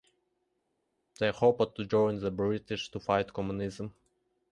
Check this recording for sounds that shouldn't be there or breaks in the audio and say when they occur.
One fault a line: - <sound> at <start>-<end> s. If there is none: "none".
none